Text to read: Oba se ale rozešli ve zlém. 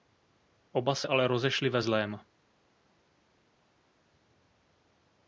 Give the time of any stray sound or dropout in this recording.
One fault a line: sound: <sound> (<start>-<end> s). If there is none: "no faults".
no faults